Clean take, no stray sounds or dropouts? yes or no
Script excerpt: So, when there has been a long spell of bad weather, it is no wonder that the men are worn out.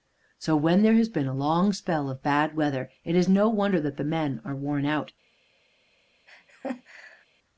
no